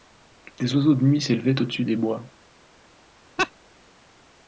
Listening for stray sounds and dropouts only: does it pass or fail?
fail